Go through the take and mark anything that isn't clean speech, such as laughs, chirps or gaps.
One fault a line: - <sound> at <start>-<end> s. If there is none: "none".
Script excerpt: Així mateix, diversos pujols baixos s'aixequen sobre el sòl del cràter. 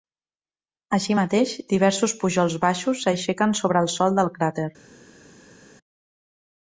none